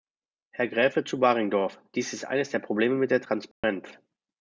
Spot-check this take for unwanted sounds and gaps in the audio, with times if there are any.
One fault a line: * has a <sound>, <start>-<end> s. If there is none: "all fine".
* has a dropout, 3.5-3.6 s